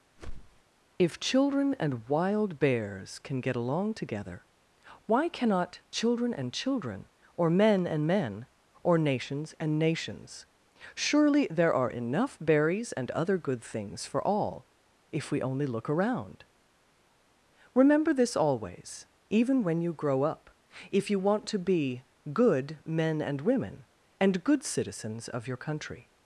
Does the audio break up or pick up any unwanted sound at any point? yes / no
yes